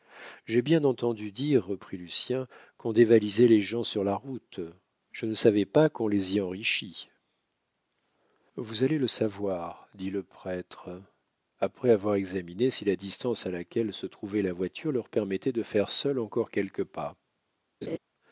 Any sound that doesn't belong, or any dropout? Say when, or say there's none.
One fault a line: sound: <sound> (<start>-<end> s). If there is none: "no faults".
sound: laugh (17.8-18.0 s)